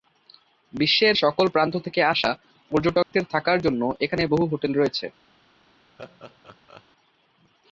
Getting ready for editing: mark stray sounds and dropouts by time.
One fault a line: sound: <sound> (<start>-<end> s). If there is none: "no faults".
sound: dropout (3.0-3.1 s)
sound: laugh (6.0-6.8 s)